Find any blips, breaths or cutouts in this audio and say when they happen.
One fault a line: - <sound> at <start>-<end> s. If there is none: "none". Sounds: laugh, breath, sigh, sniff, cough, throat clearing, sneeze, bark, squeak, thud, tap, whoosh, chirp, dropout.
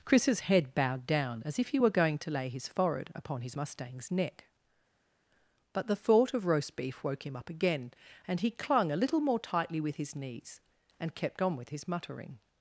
none